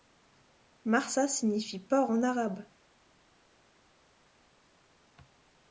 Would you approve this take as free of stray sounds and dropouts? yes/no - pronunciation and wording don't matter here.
yes